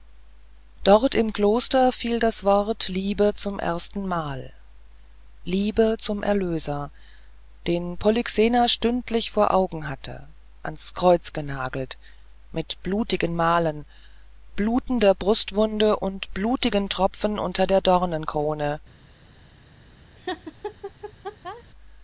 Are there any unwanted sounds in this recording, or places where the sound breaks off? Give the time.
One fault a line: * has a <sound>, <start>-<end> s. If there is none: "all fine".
* has a laugh, 20.2-21.6 s